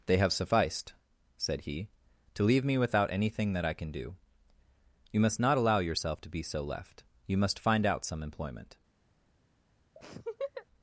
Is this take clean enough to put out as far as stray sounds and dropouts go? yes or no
no